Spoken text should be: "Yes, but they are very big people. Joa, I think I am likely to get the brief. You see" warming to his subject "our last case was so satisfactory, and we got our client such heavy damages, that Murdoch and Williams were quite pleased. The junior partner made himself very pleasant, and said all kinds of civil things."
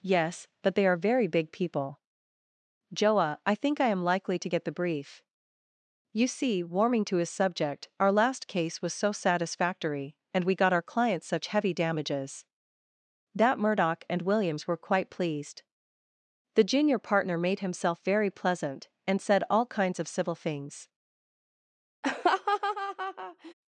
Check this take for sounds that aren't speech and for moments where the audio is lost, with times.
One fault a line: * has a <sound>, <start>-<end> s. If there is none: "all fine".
* has a laugh, 22.0-23.5 s